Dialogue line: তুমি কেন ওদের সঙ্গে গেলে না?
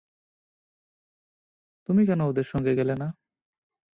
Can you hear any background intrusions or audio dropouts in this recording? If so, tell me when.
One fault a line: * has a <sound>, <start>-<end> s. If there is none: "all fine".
all fine